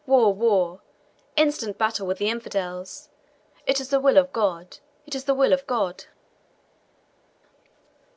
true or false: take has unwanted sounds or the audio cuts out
false